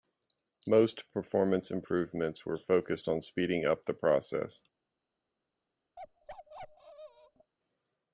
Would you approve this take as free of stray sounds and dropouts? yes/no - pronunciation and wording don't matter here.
no